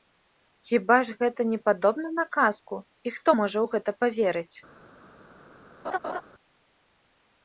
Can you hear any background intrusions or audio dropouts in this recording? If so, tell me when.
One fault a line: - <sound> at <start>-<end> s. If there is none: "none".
- laugh at 5.8-6.2 s